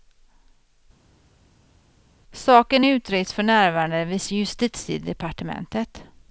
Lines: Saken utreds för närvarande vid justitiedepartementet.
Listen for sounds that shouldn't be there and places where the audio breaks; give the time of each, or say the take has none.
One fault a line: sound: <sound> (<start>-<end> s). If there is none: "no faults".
no faults